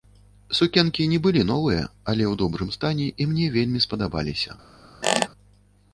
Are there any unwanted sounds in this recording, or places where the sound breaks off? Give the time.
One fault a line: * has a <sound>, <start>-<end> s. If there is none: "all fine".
* has a squeak, 5.0-5.3 s